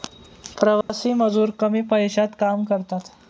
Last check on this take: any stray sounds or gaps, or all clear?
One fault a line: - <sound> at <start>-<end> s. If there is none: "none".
- dropout at 0.8-0.9 s